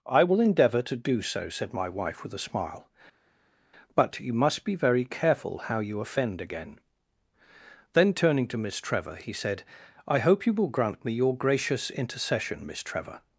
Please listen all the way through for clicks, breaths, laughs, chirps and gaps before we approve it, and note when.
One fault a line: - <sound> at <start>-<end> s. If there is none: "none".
none